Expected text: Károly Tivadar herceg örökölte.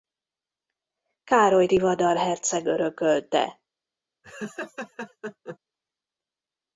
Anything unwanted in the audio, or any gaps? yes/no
yes